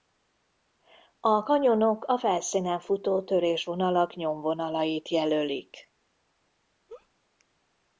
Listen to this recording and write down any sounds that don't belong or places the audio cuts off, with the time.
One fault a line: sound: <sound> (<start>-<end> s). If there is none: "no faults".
sound: laugh (6.9-7.1 s)